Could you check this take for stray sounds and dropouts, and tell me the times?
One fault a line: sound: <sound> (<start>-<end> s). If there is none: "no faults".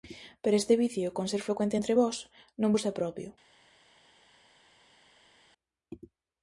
no faults